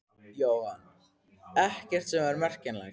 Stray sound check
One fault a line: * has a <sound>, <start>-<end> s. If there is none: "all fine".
all fine